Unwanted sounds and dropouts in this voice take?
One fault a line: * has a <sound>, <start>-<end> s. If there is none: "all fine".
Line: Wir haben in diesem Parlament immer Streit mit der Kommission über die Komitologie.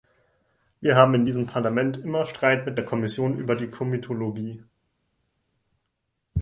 all fine